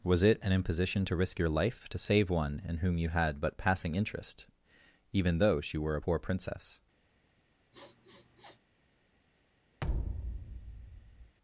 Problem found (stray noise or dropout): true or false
true